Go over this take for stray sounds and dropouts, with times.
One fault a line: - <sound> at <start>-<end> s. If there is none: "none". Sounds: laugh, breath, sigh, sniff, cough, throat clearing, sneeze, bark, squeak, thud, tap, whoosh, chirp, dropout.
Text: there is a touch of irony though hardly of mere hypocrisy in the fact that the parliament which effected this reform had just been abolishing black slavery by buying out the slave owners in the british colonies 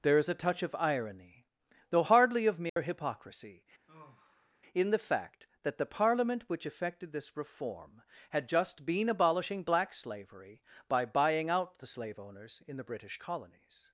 - dropout at 2.7-2.8 s
- sigh at 3.9-4.6 s